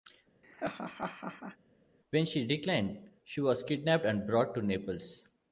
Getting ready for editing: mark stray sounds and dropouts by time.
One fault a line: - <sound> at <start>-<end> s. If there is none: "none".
- laugh at 0.4-1.6 s